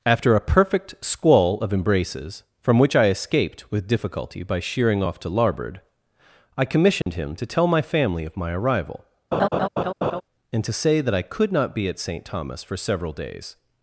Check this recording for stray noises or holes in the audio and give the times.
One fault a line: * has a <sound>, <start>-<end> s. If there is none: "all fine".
* has a dropout, 7.0-7.1 s
* has a laugh, 9.3-10.2 s